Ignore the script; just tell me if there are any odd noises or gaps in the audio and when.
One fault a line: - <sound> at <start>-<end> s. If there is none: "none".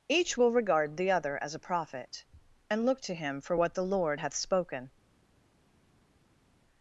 none